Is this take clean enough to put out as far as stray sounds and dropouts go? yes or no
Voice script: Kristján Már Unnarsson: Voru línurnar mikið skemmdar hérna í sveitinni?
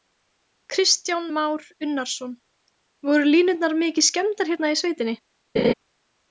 no